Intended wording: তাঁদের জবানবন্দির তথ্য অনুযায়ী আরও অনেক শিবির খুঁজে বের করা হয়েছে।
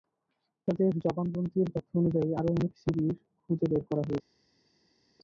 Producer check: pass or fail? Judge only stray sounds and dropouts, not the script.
pass